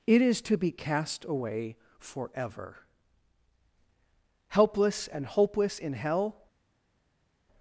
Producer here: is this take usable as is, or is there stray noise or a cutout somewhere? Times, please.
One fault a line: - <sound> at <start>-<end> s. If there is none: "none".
none